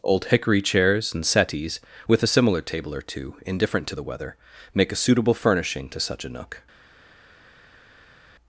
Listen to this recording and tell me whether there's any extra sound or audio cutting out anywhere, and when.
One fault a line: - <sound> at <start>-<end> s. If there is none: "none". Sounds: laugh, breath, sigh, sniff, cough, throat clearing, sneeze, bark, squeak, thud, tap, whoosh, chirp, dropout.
none